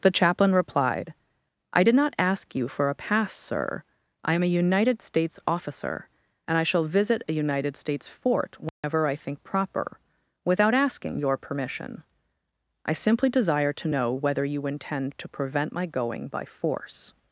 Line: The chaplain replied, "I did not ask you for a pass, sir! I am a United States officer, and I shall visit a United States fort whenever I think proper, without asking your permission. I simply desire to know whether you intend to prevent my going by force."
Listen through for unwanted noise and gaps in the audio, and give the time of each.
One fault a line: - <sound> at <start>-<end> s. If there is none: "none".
- dropout at 8.7-8.8 s